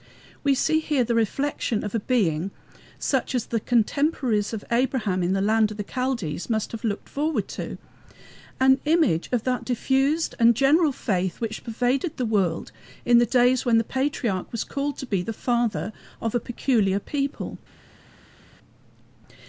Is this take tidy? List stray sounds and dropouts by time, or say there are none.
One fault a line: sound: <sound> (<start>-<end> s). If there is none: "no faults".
no faults